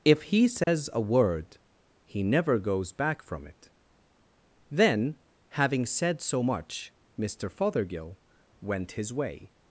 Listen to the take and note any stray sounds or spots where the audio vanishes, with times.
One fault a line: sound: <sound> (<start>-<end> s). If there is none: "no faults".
sound: dropout (0.6-0.7 s)